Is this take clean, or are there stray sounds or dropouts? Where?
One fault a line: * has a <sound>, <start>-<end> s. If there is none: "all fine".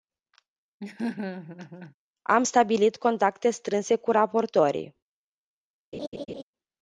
* has a laugh, 0.8-1.9 s
* has a laugh, 5.9-6.4 s